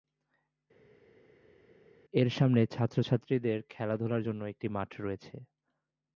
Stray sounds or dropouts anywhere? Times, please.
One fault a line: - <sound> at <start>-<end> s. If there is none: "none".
none